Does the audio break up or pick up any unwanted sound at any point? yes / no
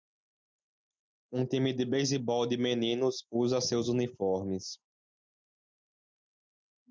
no